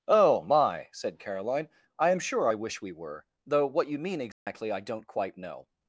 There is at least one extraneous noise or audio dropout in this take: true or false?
true